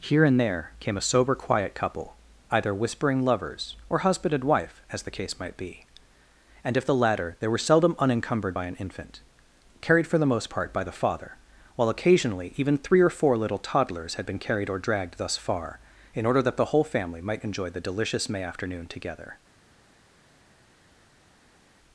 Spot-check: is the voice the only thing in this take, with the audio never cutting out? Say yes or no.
yes